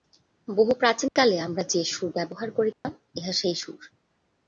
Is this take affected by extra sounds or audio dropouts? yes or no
yes